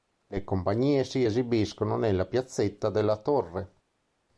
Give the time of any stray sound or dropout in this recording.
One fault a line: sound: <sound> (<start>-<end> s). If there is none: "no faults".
no faults